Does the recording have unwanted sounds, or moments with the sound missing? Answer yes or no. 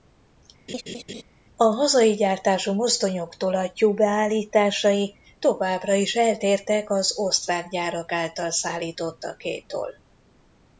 yes